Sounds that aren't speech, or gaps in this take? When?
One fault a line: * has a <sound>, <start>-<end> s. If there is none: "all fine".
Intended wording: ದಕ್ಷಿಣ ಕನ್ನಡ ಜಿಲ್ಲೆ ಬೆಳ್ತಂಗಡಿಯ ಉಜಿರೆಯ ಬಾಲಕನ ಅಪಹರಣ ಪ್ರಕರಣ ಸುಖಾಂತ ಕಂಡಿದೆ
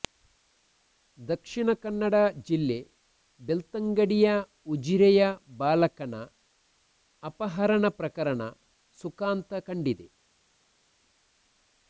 all fine